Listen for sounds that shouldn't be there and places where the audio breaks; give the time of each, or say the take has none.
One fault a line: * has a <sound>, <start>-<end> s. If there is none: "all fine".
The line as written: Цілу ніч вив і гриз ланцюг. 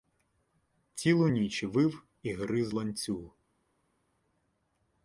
all fine